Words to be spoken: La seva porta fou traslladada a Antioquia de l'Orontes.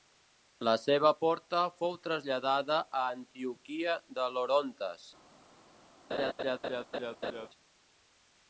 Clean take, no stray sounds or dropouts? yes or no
no